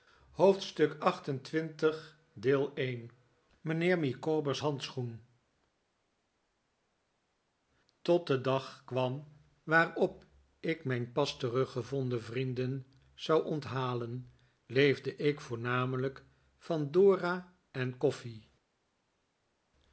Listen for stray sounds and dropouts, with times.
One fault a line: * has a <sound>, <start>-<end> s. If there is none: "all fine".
all fine